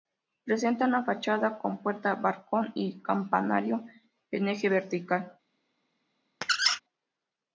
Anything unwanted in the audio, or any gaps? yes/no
yes